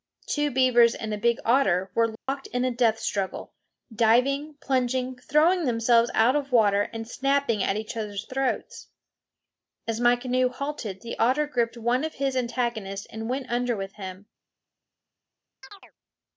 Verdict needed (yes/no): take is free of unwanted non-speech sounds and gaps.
no